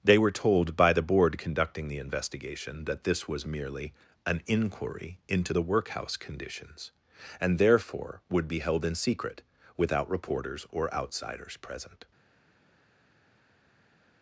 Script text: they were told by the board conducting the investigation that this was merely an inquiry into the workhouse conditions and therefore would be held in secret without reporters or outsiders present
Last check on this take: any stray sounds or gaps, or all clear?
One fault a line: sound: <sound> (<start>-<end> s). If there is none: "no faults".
no faults